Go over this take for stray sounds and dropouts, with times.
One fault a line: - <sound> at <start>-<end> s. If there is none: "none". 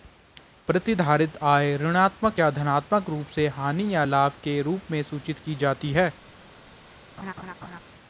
- laugh at 7.2-7.8 s